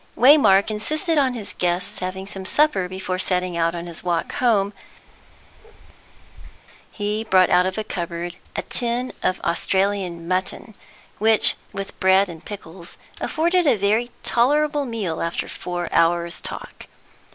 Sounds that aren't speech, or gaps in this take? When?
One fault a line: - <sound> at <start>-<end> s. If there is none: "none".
- bark at 5.1-6.6 s